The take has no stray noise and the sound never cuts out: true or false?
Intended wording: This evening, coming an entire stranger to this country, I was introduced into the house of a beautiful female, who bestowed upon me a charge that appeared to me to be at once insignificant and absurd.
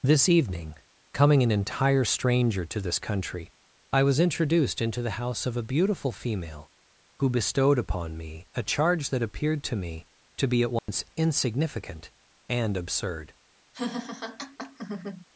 false